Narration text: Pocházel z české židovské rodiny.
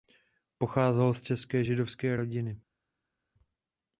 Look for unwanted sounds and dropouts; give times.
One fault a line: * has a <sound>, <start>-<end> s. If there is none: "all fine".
all fine